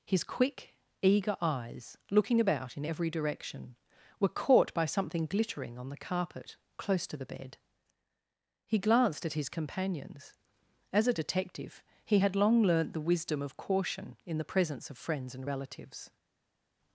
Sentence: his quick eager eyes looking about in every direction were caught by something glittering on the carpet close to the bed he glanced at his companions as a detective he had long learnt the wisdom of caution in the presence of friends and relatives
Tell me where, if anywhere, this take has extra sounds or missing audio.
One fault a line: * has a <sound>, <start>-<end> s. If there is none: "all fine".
all fine